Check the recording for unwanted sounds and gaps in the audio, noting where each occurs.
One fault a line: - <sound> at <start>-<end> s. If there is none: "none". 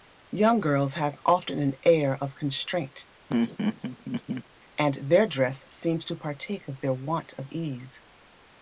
- laugh at 3.3-4.4 s